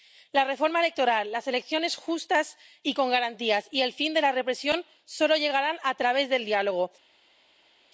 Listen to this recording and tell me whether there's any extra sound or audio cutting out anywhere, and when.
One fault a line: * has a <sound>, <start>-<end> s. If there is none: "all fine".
all fine